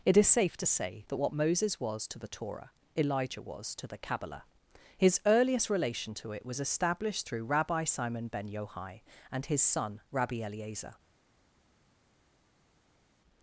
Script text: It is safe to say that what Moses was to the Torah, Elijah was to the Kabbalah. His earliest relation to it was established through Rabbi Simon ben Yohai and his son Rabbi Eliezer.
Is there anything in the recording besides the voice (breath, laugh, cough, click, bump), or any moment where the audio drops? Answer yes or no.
no